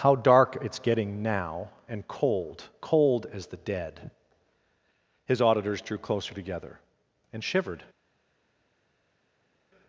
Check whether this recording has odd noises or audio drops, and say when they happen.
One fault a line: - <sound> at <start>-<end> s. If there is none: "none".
none